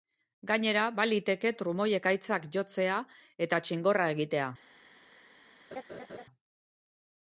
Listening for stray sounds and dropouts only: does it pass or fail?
fail